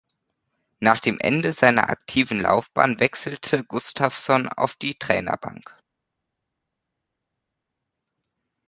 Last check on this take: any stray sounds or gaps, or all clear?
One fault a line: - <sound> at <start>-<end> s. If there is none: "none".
none